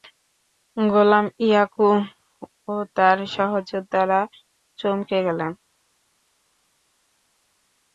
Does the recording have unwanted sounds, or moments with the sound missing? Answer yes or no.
no